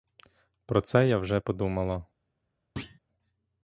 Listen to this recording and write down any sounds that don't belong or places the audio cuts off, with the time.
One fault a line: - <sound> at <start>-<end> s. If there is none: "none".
- thud at 2.8-3.0 s